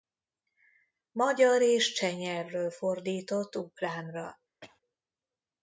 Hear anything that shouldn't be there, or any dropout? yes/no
yes